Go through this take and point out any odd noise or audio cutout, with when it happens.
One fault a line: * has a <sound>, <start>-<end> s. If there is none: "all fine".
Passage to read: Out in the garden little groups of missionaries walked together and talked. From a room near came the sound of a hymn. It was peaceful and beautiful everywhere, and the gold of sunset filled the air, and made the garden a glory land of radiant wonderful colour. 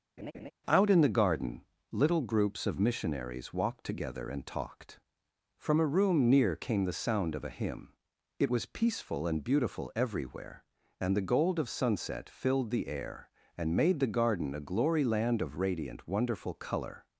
* has a laugh, 0.2-0.5 s